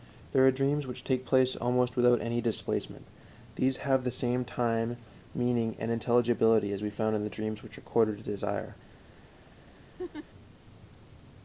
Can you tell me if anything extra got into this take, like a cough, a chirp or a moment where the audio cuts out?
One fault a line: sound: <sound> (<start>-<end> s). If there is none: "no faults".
sound: laugh (10.0-10.3 s)